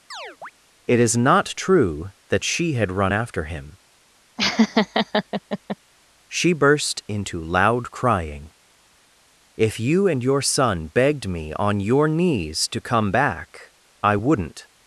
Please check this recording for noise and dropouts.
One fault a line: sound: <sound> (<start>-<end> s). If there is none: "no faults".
sound: chirp (0.1-0.5 s)
sound: laugh (4.4-5.8 s)